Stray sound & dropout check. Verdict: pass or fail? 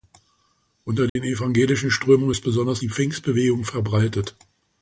fail